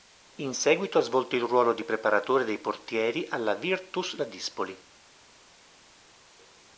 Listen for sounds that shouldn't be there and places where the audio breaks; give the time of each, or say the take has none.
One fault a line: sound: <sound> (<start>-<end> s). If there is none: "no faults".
no faults